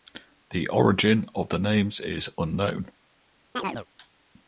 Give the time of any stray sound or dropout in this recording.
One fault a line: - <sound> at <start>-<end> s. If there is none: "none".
- chirp at 3.5-3.9 s